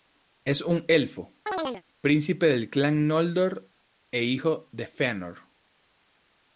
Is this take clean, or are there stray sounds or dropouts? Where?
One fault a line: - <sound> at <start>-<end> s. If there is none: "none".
- chirp at 1.5-1.8 s